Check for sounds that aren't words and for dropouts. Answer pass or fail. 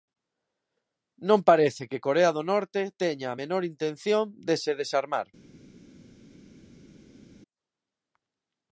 pass